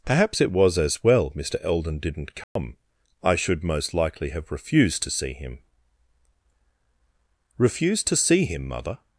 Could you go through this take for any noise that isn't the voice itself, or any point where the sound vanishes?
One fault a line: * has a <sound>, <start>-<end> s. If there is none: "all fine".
* has a dropout, 2.4-2.6 s